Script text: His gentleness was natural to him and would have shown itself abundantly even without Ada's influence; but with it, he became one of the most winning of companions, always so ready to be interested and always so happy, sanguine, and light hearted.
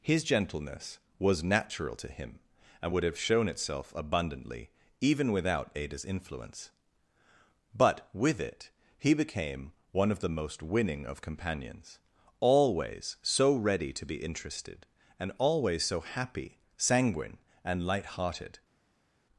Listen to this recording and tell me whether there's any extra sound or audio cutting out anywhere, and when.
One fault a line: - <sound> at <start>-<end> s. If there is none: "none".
none